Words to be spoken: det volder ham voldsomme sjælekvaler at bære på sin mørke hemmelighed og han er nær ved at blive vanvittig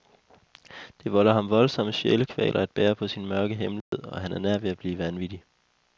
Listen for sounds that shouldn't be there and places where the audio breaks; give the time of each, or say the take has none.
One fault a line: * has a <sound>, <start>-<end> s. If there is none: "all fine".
* has a dropout, 3.8-3.9 s